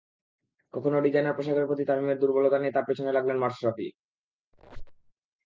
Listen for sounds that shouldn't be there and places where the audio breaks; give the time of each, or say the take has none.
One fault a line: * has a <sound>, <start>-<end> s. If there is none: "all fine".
* has a squeak, 4.5-5.1 s